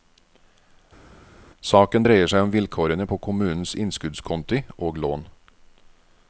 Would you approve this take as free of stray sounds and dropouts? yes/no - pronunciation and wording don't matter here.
yes